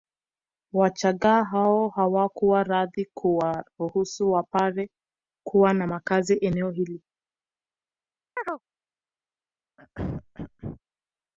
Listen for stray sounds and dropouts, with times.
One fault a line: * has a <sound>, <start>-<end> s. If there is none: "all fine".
* has a chirp, 8.4-8.6 s
* has a throat clearing, 9.8-10.8 s